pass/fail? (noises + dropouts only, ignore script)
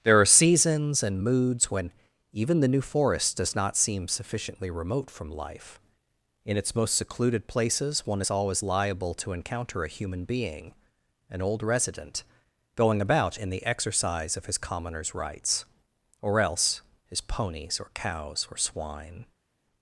pass